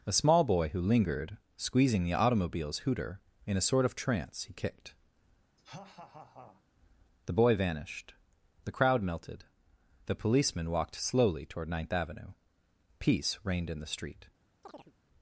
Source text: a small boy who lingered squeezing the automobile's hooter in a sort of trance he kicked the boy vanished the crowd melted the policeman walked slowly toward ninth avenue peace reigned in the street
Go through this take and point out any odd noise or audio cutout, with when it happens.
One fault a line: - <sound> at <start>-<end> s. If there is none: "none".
- laugh at 5.6-6.6 s
- chirp at 14.6-14.9 s